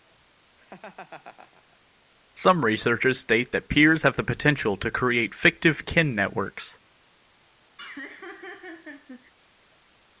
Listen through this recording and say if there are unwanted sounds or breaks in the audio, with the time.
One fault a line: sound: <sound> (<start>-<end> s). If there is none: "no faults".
sound: laugh (0.6-1.8 s)
sound: laugh (7.8-9.3 s)